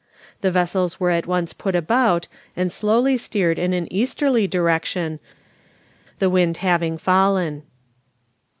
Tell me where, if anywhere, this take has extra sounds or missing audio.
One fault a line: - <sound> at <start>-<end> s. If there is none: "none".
none